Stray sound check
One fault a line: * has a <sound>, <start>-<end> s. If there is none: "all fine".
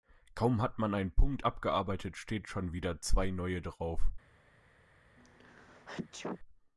* has a sneeze, 5.2-6.4 s